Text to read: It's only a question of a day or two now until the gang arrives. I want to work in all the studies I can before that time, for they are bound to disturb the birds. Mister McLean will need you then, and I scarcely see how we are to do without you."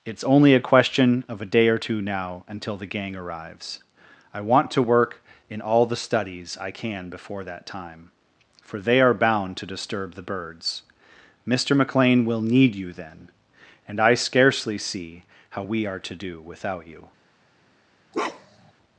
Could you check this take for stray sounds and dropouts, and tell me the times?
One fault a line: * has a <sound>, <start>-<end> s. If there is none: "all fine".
* has a bark, 18.1-18.7 s